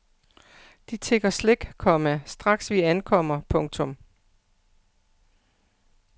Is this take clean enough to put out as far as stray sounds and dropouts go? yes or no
yes